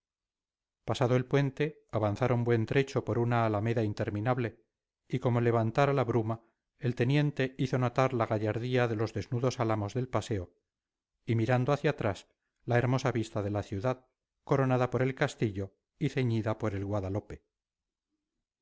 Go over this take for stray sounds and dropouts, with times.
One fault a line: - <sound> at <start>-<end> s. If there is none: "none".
none